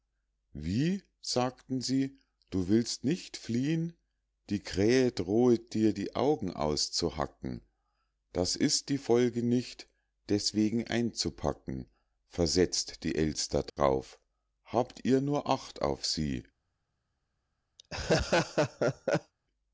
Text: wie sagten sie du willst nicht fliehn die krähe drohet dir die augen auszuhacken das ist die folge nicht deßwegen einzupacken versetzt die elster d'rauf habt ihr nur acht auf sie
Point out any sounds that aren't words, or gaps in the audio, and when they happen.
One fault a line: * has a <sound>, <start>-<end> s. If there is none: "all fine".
* has a dropout, 13.7-13.8 s
* has a laugh, 17.8-19.3 s